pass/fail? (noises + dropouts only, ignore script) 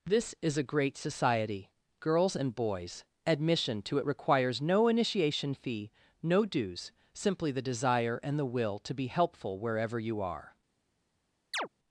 fail